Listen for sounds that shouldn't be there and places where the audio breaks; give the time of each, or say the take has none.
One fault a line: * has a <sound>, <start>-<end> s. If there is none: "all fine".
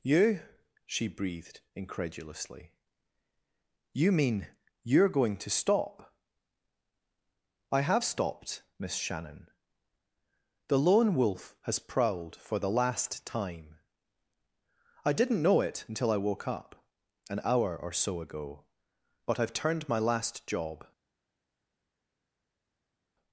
all fine